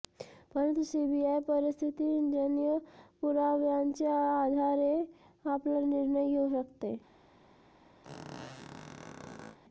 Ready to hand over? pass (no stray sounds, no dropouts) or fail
fail